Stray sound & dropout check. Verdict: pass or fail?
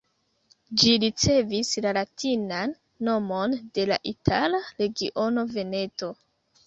pass